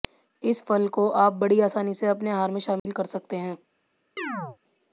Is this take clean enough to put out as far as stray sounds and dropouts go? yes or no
no